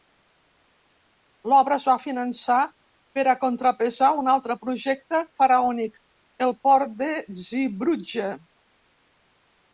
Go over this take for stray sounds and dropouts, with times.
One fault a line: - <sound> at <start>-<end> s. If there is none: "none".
none